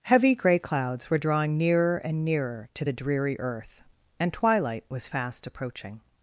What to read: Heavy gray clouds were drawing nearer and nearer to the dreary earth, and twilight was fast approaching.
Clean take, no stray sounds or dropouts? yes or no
yes